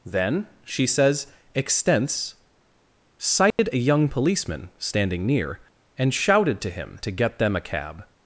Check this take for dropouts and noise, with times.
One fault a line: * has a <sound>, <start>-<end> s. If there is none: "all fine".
* has a dropout, 3.5-3.6 s